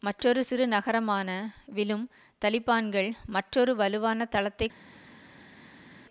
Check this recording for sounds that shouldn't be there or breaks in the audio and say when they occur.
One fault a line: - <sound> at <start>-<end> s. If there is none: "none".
none